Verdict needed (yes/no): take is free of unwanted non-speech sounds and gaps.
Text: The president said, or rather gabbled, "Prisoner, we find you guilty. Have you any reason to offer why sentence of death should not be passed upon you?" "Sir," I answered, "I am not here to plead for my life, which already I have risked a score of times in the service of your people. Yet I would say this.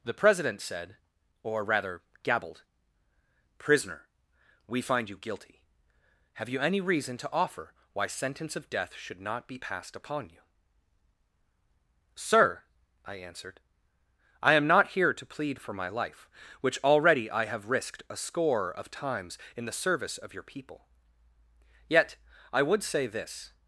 yes